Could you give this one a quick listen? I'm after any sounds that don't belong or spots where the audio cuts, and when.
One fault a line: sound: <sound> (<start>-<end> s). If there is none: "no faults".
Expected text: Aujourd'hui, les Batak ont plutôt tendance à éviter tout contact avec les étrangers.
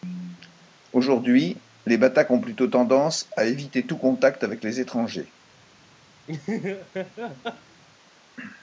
sound: laugh (6.3-7.8 s)